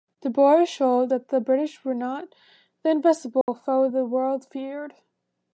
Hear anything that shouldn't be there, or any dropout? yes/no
yes